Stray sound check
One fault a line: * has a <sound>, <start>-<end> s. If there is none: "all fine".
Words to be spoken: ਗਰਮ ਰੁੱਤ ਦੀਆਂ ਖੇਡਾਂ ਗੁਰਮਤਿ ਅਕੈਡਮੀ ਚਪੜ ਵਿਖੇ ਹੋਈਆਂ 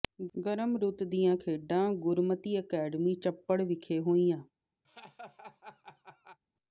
* has a laugh, 4.8-6.4 s